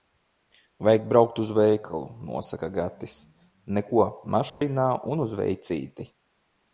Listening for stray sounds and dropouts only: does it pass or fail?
fail